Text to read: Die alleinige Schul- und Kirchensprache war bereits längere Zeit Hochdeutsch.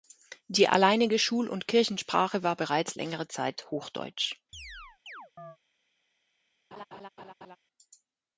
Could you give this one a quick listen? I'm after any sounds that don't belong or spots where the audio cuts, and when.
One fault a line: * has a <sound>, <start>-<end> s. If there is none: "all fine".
* has a chirp, 4.5-5.6 s
* has a laugh, 6.7-7.6 s